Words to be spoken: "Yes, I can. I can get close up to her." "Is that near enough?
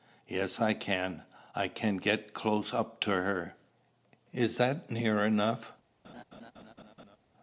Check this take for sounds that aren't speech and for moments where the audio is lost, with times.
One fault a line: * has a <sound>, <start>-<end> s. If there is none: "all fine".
* has a laugh, 6.0-7.2 s